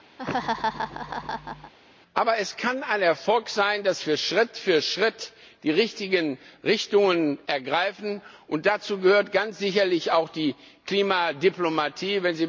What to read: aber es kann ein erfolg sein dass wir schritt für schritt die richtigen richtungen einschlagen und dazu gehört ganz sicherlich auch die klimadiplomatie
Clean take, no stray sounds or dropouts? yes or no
no